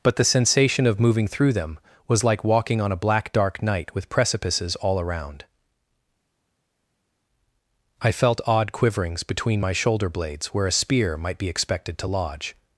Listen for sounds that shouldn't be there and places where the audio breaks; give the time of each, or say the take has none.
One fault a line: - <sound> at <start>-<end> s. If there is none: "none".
none